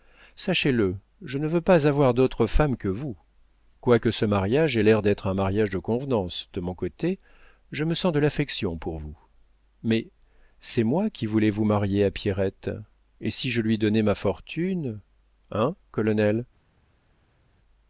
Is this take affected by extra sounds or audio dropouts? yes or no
no